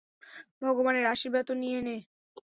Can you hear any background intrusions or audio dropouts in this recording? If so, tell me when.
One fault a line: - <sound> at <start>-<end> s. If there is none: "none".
none